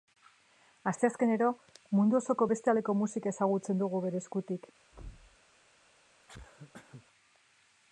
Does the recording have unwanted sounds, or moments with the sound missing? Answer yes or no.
yes